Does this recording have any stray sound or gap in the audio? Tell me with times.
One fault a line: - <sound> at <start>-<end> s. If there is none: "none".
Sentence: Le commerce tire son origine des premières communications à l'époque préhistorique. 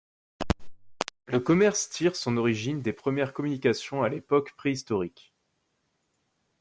none